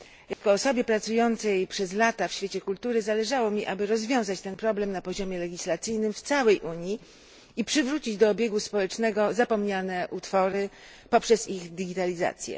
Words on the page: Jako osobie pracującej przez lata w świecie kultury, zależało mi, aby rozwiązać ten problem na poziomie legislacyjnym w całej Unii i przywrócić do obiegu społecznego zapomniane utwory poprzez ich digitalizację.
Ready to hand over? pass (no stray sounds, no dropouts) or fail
fail